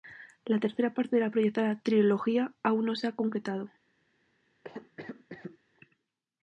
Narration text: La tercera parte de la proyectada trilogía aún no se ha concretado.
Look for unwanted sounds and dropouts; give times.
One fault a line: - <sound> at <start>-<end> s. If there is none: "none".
- cough at 4.6-5.6 s